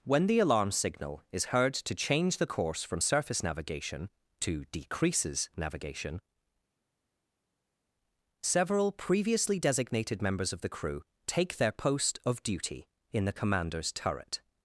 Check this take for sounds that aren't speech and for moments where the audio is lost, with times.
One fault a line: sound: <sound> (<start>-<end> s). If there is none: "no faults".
no faults